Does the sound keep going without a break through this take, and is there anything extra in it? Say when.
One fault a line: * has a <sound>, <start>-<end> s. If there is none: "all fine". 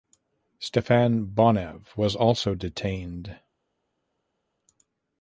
all fine